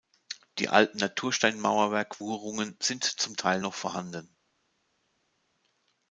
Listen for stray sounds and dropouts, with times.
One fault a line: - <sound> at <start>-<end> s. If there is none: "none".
none